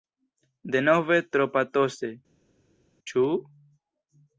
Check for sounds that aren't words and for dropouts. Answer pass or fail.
pass